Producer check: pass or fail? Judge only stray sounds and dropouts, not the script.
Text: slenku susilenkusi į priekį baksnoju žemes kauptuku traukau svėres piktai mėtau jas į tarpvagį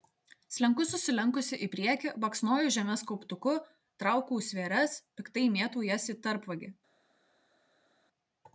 pass